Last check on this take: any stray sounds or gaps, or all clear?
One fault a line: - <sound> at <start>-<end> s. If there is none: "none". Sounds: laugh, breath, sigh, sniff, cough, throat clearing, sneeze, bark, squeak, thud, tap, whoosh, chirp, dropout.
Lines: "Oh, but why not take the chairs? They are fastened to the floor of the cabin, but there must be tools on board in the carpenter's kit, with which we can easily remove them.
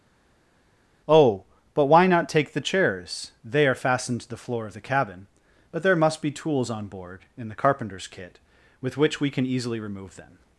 none